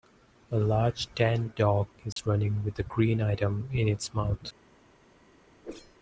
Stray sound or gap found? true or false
true